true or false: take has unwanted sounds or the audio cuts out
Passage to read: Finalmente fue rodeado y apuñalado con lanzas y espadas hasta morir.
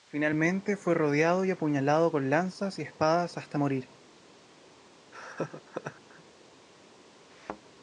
true